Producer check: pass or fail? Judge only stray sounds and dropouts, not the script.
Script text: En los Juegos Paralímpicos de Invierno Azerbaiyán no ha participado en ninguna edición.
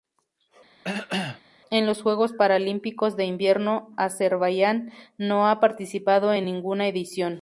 fail